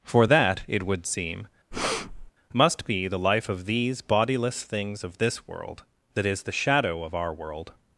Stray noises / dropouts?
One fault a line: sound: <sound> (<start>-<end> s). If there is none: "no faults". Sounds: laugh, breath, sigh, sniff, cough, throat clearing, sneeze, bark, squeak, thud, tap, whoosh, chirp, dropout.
sound: breath (1.7-2.3 s)